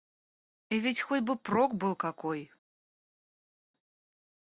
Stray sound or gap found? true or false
false